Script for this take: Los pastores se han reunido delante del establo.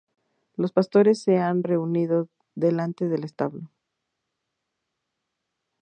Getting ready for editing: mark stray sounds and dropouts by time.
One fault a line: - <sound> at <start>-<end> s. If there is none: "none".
none